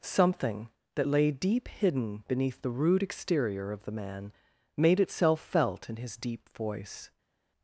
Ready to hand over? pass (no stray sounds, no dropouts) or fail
pass